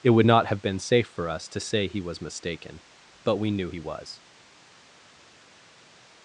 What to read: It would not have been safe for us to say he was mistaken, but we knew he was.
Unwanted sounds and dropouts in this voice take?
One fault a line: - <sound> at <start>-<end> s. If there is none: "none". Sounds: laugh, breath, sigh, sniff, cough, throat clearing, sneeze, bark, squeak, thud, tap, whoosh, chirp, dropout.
none